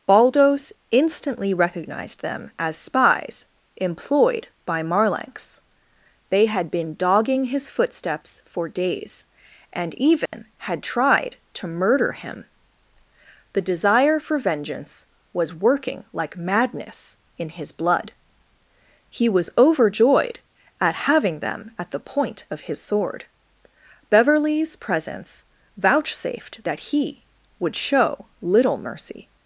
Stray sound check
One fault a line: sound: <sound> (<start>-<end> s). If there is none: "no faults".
sound: dropout (10.3-10.3 s)